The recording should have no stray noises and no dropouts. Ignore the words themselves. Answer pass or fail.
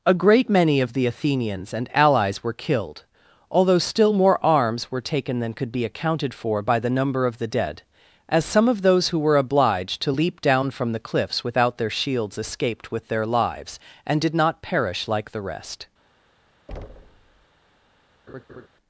fail